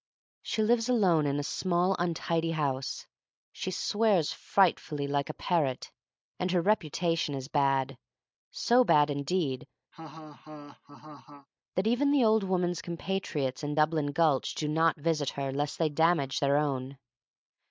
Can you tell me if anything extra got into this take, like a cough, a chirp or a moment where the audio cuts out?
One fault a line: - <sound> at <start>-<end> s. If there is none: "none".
- laugh at 9.9-11.5 s